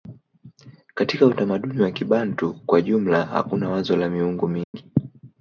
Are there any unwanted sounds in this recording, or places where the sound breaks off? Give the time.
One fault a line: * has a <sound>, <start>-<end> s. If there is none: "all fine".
* has a dropout, 4.6-4.7 s